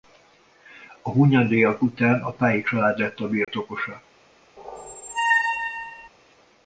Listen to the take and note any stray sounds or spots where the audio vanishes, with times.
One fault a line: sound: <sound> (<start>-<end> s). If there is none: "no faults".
sound: dropout (3.4-3.5 s)
sound: squeak (4.6-6.1 s)